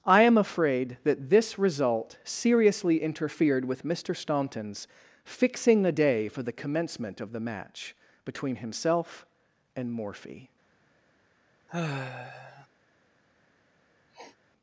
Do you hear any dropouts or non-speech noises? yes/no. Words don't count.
yes